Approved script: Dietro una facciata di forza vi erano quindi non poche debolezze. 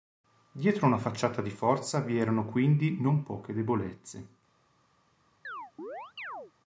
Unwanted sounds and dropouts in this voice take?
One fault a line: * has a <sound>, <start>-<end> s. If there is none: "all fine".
* has a chirp, 5.4-6.5 s